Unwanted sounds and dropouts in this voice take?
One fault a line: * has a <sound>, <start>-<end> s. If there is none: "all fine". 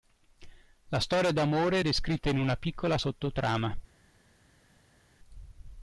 all fine